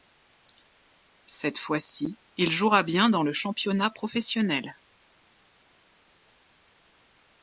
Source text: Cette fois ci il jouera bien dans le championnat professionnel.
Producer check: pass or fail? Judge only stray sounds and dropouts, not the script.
pass